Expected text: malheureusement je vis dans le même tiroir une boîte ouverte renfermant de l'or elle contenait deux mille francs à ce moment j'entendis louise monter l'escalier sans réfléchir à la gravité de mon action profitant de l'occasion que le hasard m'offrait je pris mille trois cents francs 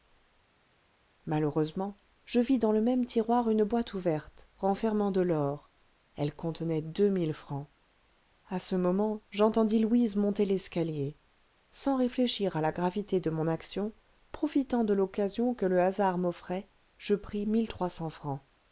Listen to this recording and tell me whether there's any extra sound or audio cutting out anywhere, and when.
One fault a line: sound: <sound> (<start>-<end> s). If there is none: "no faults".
no faults